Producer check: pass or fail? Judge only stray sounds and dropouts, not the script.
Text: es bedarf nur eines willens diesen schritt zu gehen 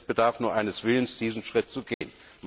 fail